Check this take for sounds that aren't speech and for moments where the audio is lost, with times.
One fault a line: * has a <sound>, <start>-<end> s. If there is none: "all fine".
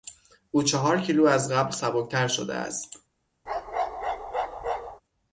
* has a bark, 3.5-5.0 s